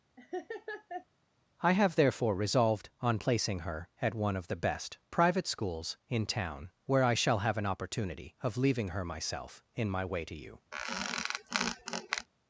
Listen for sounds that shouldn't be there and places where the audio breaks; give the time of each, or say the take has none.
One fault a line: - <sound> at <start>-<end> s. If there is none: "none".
- laugh at 0.2-1.1 s
- squeak at 10.7-12.3 s